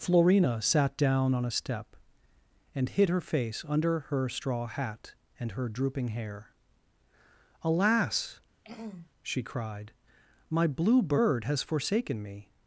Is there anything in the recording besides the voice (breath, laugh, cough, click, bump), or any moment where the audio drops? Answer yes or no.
yes